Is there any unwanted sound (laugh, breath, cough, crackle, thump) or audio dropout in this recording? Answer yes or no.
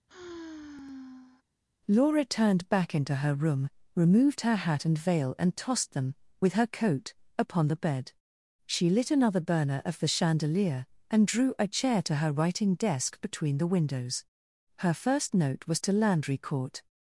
yes